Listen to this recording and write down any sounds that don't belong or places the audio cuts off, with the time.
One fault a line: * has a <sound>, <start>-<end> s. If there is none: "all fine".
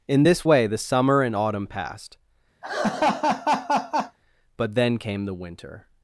* has a laugh, 2.6-4.2 s